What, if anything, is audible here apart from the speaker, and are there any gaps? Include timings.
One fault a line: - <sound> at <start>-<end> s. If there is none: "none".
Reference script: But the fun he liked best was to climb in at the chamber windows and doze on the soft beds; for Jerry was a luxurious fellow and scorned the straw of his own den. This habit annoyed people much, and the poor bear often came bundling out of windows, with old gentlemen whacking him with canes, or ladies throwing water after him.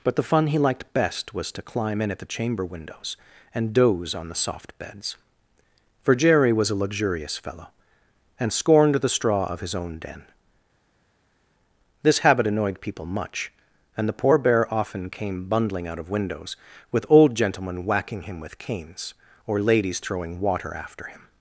none